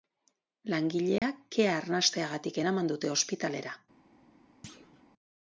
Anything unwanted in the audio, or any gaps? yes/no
yes